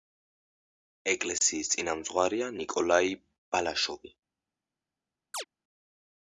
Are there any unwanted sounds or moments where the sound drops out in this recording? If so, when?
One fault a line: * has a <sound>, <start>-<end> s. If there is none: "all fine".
* has a chirp, 5.3-5.4 s